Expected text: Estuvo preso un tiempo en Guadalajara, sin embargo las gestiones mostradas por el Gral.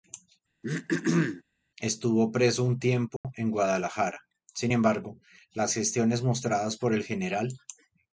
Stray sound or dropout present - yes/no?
yes